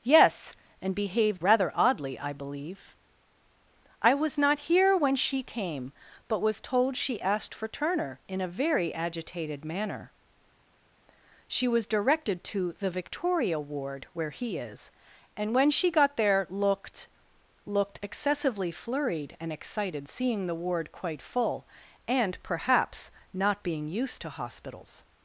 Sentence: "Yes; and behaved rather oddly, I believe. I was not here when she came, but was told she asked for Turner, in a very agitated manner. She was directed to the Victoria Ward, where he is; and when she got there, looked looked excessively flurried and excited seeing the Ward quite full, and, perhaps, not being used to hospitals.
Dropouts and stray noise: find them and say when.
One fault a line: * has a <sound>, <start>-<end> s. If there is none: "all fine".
all fine